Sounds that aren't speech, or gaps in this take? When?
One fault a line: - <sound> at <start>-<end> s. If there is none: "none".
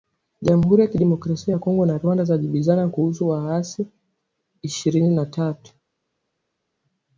none